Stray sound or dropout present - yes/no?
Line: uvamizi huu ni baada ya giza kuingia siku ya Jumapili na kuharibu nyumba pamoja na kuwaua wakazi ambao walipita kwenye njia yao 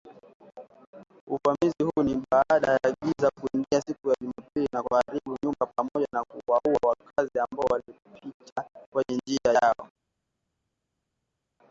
no